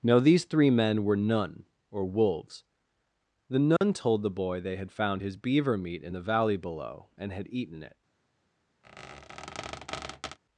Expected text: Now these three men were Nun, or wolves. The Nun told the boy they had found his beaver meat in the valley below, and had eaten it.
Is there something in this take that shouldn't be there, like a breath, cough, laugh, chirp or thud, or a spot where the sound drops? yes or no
yes